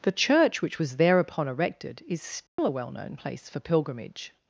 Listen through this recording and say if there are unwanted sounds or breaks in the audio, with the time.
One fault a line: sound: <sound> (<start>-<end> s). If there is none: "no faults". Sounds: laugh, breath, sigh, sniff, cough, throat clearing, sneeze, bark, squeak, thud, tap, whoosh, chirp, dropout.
sound: dropout (2.5-2.6 s)